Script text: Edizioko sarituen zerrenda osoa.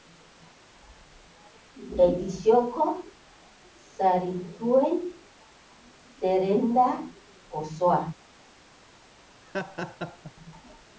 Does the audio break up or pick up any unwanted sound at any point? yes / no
yes